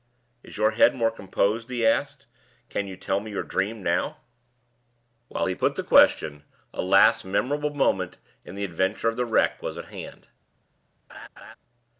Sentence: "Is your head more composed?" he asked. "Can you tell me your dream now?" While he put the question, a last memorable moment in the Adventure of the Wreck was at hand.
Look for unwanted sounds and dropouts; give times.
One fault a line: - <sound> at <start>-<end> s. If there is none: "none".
- laugh at 11.1-11.6 s